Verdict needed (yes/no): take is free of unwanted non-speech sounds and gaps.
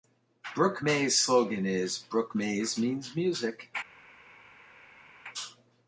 yes